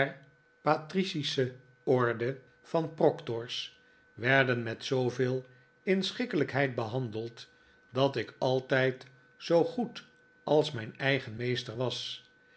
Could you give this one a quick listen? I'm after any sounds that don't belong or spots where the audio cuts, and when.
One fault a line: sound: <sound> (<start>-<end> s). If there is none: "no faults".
no faults